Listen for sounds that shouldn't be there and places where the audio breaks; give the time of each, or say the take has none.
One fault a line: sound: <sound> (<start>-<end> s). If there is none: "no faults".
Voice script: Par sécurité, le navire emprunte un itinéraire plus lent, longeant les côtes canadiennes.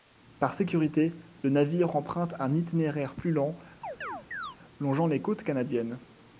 sound: chirp (3.8-4.6 s)